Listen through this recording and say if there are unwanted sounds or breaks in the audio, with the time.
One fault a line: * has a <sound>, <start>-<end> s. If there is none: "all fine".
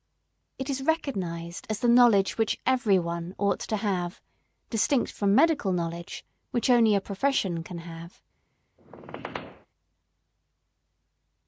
* has a squeak, 8.8-9.7 s